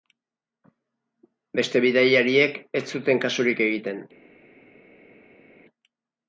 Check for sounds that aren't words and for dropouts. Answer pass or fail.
pass